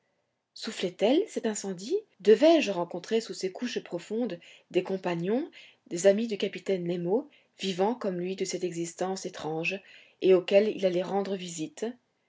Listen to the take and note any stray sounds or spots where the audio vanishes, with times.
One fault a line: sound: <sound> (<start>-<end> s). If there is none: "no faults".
no faults